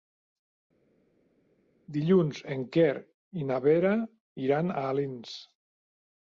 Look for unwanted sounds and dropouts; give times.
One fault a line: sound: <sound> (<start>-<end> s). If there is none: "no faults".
no faults